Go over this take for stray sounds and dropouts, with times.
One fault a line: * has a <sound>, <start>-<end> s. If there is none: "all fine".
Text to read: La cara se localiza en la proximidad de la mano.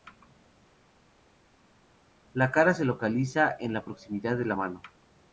all fine